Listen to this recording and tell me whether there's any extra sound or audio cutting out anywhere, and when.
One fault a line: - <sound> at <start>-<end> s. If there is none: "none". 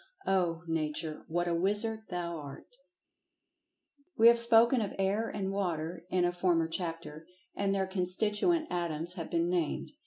none